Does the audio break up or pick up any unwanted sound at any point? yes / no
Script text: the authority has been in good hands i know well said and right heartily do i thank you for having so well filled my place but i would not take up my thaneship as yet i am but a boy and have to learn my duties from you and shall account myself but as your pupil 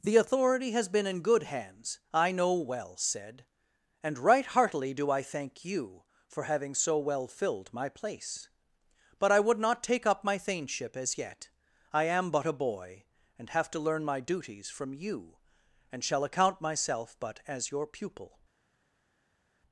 no